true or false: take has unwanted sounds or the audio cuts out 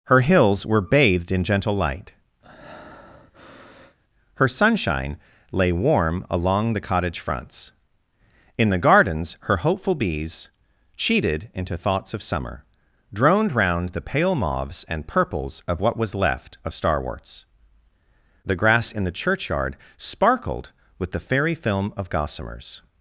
true